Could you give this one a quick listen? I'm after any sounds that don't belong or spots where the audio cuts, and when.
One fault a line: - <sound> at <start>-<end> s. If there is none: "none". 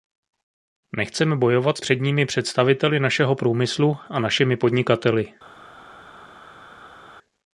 none